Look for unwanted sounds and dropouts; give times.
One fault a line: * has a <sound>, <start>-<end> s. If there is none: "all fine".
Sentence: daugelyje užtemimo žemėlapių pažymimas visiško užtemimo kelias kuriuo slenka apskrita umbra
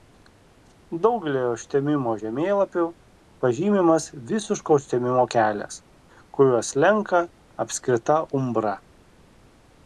all fine